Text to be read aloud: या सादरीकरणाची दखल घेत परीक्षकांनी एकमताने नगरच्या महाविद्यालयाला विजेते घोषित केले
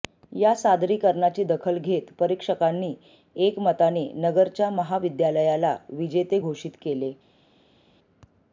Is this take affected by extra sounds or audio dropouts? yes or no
no